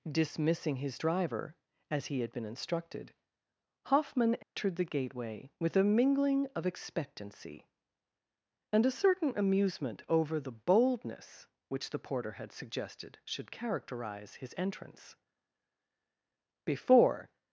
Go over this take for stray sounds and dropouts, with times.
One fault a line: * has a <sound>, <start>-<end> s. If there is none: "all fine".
* has a dropout, 4.4-4.6 s